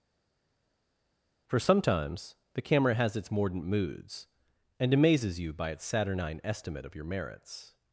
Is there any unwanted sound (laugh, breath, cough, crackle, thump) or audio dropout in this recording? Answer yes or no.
no